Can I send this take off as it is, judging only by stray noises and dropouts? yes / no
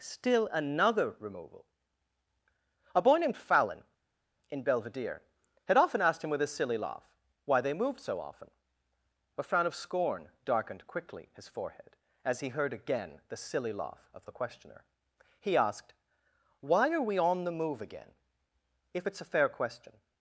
yes